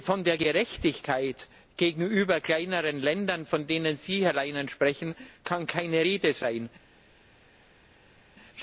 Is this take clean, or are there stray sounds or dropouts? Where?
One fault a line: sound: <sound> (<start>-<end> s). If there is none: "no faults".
no faults